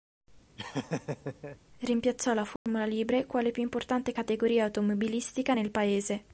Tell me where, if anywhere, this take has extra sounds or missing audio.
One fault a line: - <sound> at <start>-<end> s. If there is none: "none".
- laugh at 0.6-1.6 s
- dropout at 2.6-2.7 s